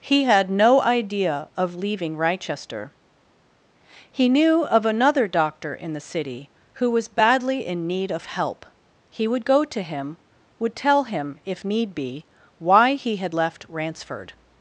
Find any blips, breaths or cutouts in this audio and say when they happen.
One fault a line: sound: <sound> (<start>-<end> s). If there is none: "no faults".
no faults